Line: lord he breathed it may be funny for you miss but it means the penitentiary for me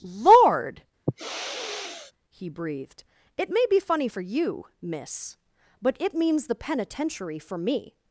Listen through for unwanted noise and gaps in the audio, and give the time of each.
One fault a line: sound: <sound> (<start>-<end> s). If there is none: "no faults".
sound: sniff (1.1-2.1 s)